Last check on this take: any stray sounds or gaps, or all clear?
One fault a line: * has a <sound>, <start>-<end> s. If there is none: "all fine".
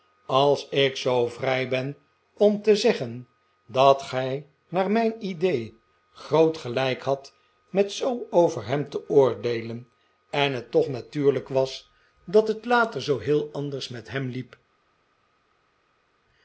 all fine